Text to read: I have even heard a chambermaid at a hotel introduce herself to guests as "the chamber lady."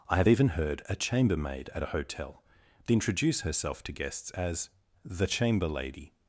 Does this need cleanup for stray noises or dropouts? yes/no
no